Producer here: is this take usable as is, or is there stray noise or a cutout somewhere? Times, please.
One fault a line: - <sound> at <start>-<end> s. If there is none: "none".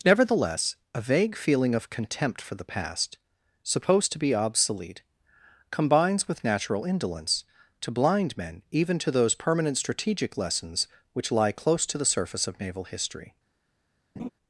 - laugh at 14.2-14.3 s